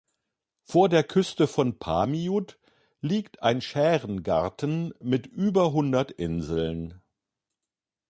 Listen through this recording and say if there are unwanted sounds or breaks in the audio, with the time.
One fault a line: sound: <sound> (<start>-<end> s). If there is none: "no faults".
no faults